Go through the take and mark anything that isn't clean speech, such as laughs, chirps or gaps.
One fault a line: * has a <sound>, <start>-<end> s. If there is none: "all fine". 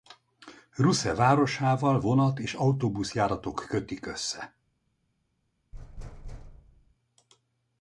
* has a thud, 5.7-7.0 s